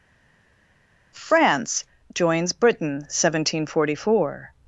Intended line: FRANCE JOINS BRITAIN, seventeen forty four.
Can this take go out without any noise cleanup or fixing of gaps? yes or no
yes